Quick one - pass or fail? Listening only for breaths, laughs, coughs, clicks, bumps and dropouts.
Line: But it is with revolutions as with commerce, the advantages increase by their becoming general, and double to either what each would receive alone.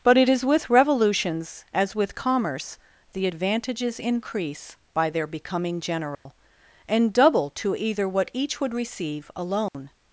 fail